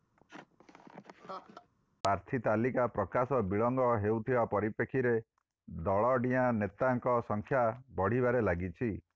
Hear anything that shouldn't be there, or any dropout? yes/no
yes